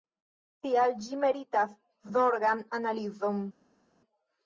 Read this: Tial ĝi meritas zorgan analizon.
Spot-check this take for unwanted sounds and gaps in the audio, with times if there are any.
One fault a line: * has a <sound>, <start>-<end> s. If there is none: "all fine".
all fine